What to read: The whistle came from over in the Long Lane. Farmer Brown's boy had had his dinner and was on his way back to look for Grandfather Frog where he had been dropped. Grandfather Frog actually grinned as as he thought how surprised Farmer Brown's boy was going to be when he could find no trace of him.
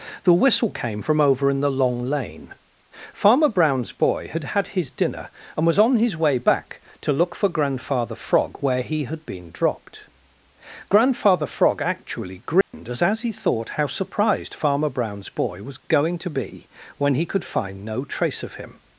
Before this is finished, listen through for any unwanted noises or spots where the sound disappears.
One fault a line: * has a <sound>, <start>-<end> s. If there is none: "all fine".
* has a dropout, 12.6-12.7 s